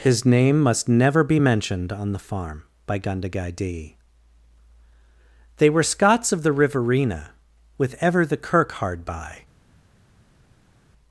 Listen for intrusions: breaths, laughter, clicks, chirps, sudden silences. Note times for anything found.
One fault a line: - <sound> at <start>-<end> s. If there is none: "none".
none